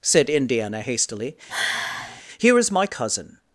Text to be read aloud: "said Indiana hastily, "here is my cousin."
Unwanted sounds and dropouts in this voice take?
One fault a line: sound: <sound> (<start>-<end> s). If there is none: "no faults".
sound: sigh (1.5-2.2 s)